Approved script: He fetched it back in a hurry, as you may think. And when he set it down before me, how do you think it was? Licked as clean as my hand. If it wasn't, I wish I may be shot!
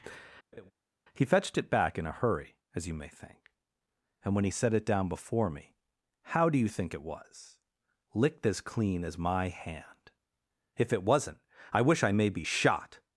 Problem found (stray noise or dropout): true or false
true